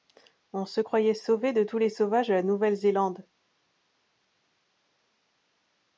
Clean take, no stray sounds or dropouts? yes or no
yes